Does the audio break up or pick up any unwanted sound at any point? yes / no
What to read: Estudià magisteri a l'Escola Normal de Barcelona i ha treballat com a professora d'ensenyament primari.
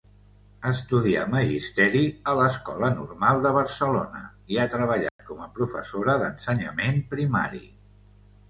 yes